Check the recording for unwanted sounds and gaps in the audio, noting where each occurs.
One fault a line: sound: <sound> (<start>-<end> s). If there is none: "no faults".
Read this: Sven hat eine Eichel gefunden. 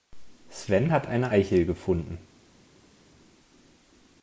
no faults